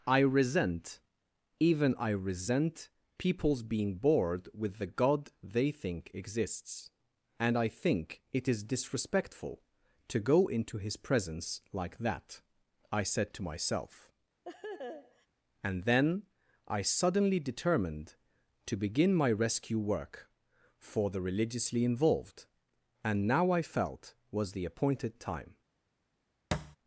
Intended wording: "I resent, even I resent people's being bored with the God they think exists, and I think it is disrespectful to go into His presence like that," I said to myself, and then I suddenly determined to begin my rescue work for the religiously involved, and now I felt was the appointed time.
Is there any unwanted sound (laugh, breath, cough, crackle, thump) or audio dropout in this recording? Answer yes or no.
yes